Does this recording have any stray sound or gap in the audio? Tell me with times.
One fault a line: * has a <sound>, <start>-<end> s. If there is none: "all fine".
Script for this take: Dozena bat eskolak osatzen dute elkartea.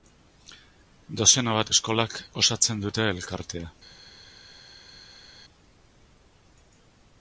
all fine